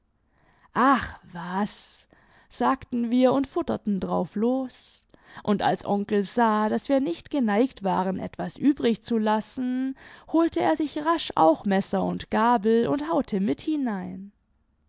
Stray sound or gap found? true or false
false